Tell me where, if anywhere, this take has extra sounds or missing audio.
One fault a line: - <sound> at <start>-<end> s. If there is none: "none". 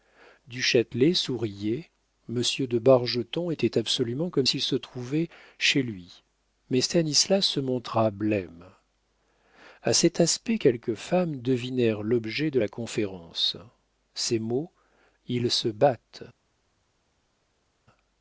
none